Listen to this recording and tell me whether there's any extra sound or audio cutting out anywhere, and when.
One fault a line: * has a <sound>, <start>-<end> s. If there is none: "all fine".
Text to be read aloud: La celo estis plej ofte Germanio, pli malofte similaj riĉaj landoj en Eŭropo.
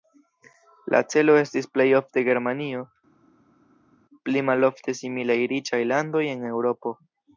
all fine